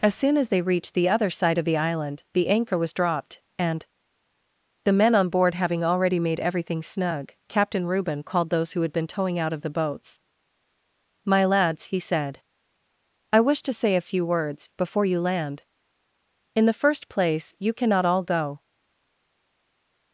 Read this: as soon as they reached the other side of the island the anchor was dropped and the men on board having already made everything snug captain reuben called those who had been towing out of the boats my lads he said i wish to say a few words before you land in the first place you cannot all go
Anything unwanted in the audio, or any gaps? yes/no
no